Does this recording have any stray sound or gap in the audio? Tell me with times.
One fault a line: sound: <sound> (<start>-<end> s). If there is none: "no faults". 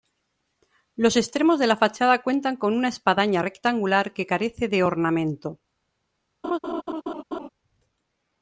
sound: laugh (6.4-7.5 s)